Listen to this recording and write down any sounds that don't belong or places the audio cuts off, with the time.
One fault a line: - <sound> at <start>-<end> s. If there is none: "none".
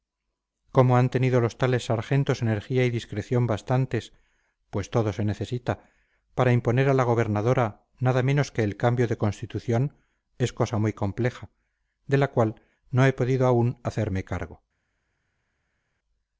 none